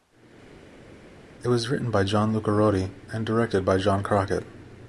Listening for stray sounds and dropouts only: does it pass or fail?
pass